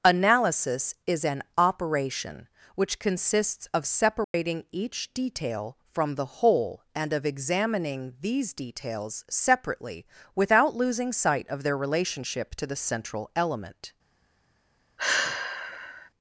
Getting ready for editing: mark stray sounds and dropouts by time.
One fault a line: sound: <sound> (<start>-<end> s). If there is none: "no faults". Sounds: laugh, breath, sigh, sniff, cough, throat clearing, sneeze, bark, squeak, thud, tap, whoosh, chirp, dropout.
sound: dropout (4.2-4.3 s)
sound: sigh (15.0-16.1 s)